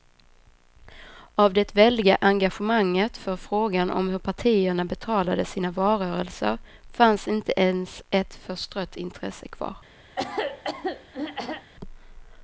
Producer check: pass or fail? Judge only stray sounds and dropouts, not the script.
fail